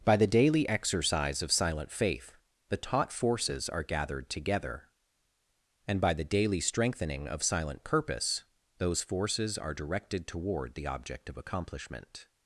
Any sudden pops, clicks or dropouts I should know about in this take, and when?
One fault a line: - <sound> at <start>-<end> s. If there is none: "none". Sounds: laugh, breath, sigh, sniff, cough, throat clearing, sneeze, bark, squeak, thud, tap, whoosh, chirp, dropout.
none